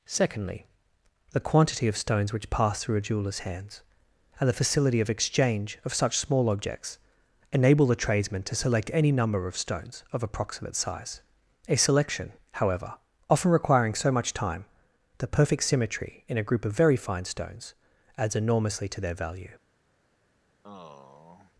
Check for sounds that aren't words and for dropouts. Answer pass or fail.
fail